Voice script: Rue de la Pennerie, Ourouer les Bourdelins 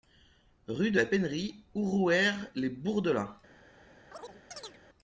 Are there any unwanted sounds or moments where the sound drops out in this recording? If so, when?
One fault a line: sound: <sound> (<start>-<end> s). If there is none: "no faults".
sound: chirp (4.1-4.8 s)